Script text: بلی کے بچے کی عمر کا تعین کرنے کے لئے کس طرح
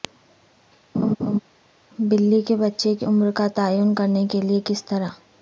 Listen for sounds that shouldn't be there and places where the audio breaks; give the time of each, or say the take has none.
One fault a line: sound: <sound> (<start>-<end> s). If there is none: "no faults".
sound: laugh (0.9-1.4 s)